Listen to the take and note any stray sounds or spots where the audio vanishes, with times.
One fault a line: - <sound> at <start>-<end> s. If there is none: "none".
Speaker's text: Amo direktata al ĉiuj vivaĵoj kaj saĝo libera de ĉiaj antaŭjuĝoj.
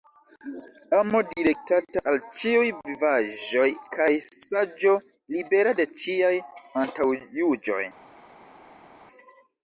none